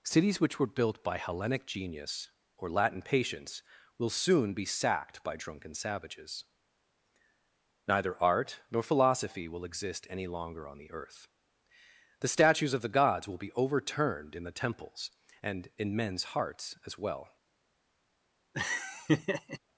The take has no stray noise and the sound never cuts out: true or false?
false